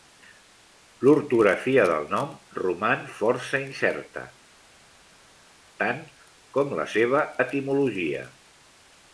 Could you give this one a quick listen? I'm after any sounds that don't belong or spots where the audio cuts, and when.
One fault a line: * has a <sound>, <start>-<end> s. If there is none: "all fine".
all fine